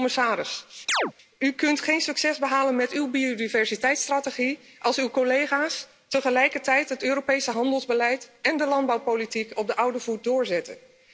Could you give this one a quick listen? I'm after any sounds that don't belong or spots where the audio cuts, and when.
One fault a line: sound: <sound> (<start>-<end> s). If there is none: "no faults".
sound: chirp (0.9-1.1 s)